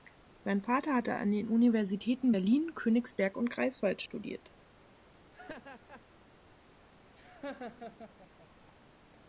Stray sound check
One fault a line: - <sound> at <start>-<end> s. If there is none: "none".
- laugh at 5.3-6.1 s
- laugh at 7.2-8.5 s